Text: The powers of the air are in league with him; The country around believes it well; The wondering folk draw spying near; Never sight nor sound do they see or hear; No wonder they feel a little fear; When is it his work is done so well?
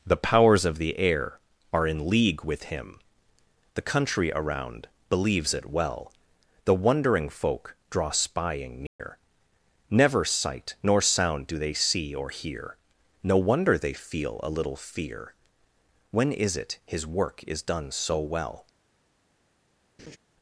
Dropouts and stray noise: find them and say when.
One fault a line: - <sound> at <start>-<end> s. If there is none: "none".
- dropout at 8.9-9.0 s
- laugh at 20.0-20.2 s